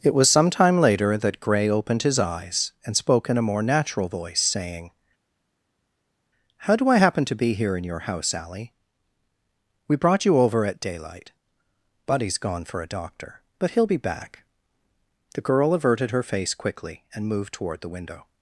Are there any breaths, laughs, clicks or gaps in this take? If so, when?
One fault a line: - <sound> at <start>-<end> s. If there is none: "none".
none